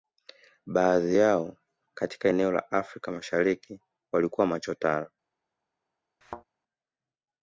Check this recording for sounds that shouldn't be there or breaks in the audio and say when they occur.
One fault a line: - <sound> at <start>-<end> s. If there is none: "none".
- thud at 6.2-6.4 s